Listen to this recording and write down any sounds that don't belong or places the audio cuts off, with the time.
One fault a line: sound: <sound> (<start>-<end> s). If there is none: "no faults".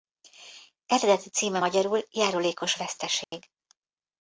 sound: dropout (3.2-3.3 s)